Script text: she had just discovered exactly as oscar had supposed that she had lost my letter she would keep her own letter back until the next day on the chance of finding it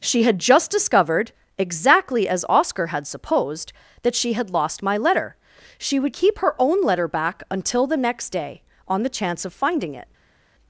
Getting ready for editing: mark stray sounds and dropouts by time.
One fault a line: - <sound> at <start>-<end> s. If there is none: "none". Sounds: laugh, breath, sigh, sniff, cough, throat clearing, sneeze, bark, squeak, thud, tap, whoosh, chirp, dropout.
none